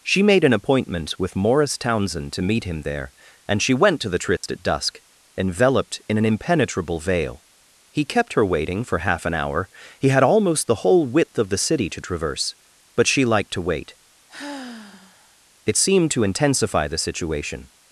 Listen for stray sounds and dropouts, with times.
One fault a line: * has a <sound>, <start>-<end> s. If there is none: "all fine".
* has a dropout, 4.4-4.4 s
* has a sigh, 14.3-15.4 s